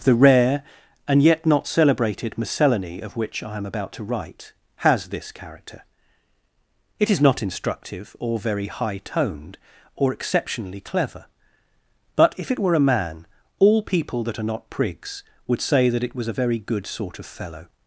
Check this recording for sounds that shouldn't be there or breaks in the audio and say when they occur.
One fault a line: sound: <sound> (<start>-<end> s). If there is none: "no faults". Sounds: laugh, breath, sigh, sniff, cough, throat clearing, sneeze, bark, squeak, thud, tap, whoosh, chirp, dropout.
no faults